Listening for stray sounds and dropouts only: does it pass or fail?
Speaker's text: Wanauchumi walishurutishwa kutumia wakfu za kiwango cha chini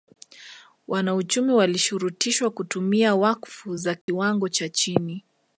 fail